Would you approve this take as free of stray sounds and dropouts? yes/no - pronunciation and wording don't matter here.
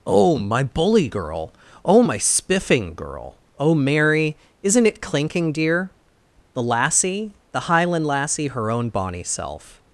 yes